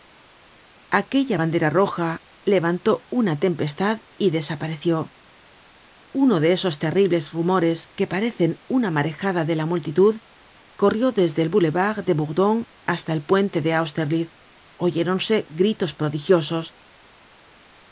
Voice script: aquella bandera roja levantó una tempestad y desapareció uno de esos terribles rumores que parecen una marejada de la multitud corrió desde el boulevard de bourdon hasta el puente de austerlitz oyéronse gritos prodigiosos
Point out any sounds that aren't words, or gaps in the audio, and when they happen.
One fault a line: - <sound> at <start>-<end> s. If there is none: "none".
none